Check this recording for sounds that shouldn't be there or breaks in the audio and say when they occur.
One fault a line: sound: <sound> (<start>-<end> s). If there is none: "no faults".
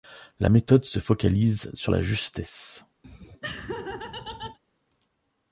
sound: laugh (3.0-4.6 s)